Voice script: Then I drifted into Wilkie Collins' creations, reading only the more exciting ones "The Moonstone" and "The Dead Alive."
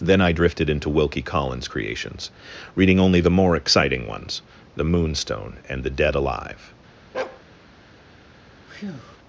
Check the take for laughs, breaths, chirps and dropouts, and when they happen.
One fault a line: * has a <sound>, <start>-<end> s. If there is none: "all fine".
* has a bark, 7.1-7.4 s
* has a breath, 8.7-9.2 s